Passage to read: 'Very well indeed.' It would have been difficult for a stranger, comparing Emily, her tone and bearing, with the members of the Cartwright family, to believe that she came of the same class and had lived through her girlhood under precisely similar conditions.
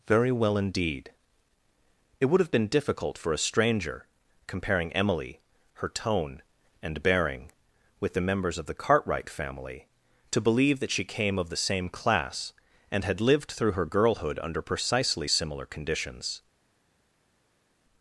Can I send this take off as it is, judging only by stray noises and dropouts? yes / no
yes